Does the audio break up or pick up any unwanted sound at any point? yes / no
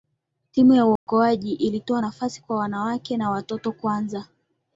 yes